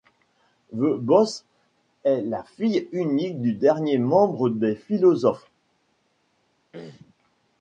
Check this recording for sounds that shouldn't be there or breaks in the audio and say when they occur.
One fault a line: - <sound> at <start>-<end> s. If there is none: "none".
- throat clearing at 6.7-7.1 s